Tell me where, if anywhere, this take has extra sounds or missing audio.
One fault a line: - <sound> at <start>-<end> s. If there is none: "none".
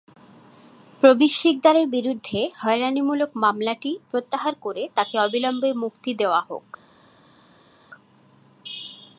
none